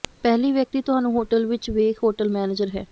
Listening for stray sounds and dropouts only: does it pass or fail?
pass